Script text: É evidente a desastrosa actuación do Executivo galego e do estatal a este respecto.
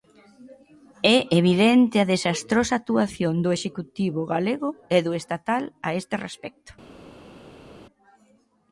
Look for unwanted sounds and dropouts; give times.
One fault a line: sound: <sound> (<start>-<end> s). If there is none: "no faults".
no faults